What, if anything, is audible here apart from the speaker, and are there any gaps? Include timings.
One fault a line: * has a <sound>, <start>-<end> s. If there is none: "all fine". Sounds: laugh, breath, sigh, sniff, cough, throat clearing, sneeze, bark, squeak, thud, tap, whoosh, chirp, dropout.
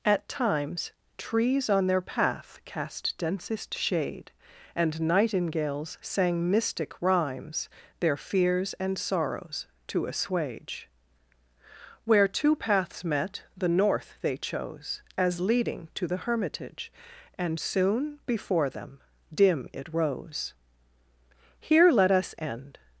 all fine